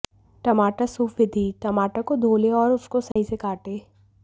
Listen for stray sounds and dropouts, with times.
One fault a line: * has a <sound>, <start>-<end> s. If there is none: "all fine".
* has a dropout, 3.1-3.2 s